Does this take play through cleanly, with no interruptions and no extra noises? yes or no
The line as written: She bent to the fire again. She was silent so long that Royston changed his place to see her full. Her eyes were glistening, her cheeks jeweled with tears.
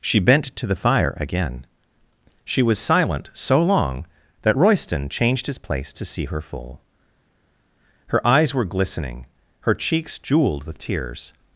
yes